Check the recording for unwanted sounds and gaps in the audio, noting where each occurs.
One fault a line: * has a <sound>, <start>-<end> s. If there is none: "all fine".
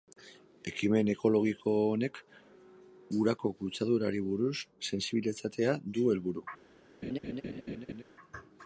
* has a laugh, 7.0-8.0 s